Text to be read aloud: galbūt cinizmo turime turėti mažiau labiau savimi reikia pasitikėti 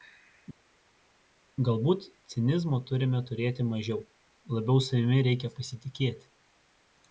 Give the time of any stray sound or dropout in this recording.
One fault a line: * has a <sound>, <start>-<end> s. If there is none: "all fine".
all fine